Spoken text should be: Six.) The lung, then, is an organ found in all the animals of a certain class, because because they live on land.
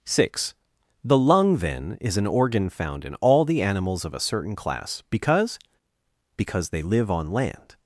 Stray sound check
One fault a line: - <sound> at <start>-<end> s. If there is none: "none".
none